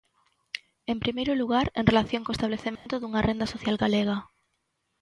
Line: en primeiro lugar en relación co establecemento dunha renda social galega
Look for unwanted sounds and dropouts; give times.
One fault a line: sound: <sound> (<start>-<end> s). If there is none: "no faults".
sound: dropout (2.8-2.9 s)